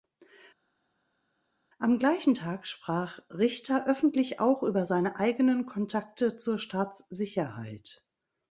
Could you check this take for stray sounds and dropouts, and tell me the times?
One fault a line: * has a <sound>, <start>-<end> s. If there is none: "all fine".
all fine